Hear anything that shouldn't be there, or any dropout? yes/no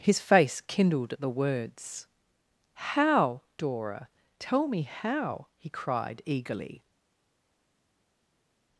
no